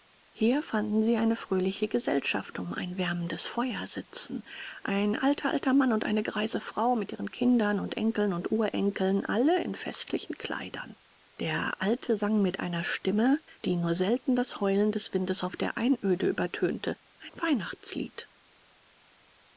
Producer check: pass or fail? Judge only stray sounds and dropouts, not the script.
pass